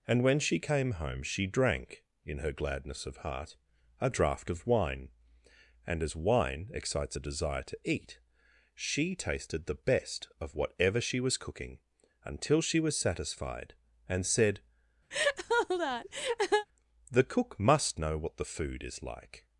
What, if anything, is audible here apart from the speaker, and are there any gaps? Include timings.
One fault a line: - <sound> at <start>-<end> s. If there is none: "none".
- laugh at 15.1-16.7 s